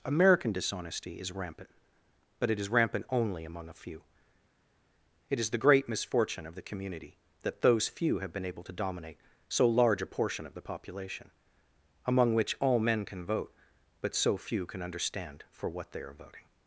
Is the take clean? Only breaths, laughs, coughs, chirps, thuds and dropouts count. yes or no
yes